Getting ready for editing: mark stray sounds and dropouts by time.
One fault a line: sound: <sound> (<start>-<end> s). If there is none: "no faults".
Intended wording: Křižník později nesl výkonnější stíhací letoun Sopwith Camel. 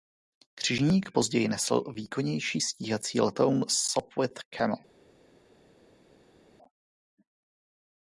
no faults